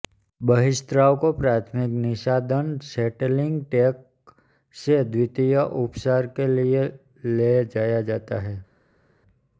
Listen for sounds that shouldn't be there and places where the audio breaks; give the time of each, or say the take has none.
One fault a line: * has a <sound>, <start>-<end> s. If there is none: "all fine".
all fine